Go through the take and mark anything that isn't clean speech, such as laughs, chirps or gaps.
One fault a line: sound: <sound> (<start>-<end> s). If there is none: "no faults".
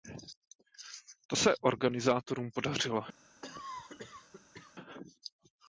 sound: cough (3.4-4.8 s)